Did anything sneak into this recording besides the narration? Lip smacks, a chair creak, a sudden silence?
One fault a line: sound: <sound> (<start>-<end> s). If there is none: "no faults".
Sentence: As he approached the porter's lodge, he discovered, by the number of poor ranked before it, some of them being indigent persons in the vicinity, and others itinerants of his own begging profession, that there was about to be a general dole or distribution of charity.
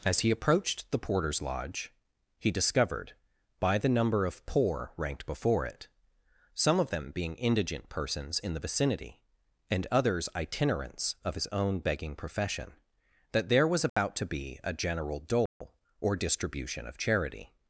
sound: dropout (13.9-14.0 s)
sound: dropout (15.5-15.6 s)